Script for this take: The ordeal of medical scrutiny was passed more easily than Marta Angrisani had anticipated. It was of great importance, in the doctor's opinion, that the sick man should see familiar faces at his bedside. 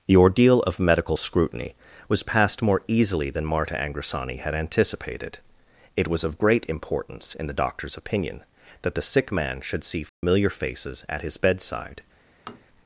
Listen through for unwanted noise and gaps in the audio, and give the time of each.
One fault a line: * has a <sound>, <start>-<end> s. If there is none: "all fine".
* has a dropout, 10.1-10.2 s
* has a tap, 12.5-12.7 s